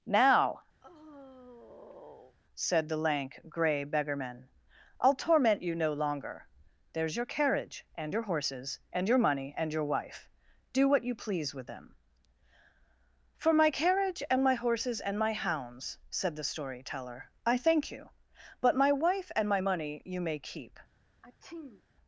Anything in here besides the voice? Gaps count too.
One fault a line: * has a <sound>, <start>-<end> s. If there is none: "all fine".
* has a sigh, 0.8-2.4 s
* has a sneeze, 21.2-21.8 s